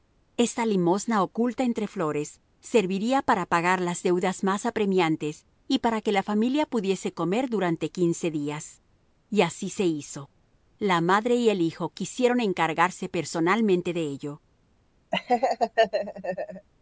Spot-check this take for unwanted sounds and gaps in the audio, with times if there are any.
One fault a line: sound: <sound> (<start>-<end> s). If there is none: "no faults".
sound: laugh (15.1-16.7 s)